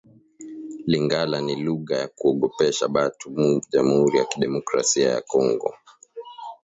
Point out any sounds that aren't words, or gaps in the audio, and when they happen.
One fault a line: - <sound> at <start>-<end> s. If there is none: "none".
none